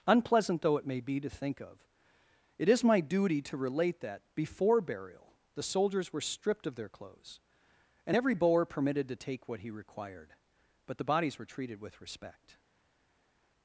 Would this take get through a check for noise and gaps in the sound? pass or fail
pass